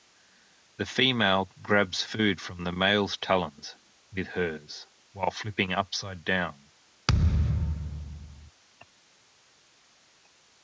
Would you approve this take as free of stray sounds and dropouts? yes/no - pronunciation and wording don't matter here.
no